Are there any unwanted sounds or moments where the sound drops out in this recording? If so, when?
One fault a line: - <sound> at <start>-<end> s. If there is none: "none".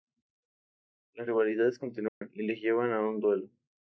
- dropout at 2.1-2.2 s